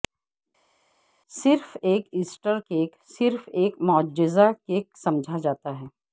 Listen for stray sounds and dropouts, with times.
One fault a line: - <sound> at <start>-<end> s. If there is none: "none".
none